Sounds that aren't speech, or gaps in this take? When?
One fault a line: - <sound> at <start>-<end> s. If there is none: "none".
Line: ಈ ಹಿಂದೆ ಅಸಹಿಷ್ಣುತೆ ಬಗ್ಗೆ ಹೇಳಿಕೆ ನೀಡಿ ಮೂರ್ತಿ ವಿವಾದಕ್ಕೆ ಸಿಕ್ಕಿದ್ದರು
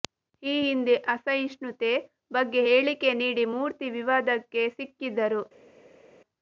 none